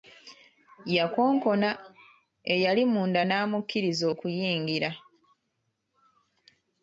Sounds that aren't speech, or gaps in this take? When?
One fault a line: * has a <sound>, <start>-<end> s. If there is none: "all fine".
all fine